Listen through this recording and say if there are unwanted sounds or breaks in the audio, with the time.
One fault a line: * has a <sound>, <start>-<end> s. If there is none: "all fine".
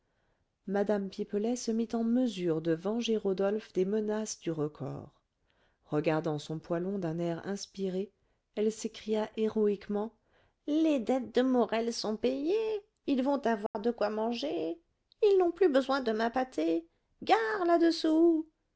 * has a dropout, 13.7-13.7 s